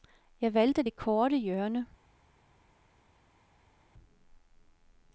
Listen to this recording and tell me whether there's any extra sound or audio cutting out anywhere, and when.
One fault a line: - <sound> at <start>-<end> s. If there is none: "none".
none